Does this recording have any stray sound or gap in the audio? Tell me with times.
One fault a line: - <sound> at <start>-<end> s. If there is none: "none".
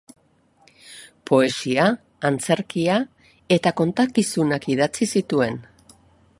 none